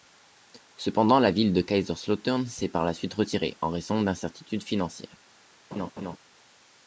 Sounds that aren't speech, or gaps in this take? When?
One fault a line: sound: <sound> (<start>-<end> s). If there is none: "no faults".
sound: laugh (5.7-6.2 s)